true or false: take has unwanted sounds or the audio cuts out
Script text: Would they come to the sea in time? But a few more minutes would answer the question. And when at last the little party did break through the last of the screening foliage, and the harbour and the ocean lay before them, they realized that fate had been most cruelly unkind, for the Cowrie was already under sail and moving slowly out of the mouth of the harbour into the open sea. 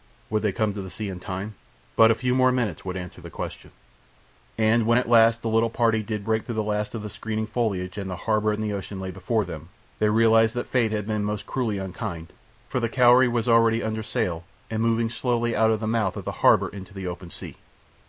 false